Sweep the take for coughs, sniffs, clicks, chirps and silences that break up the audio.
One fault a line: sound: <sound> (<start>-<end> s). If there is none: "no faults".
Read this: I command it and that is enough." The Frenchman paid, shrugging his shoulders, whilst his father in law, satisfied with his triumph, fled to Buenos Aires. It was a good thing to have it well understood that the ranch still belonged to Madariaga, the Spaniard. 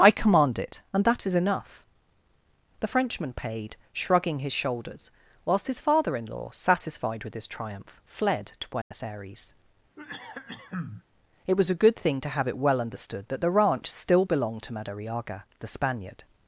sound: dropout (8.8-8.9 s)
sound: cough (10.0-11.0 s)